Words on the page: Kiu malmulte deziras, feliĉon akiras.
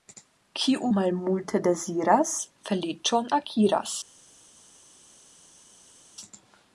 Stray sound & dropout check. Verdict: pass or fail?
pass